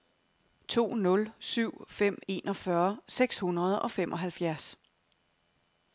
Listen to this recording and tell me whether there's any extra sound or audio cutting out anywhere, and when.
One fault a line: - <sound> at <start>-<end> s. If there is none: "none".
none